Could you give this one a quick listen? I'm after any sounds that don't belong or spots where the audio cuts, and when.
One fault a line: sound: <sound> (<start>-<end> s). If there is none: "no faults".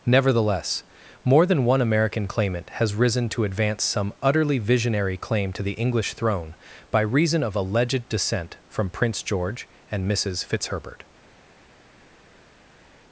no faults